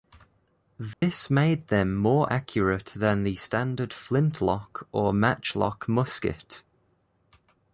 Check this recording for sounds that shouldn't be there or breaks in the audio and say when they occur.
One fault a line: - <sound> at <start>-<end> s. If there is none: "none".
- dropout at 0.9-1.0 s